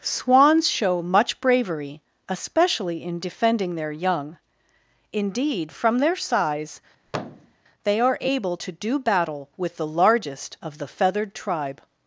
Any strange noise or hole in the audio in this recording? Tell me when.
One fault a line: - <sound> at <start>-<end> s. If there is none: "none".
- thud at 7.1-7.6 s